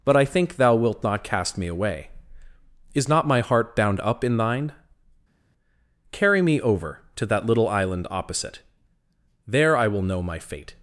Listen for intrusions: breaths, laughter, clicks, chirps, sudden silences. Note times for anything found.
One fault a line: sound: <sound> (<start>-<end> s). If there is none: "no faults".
no faults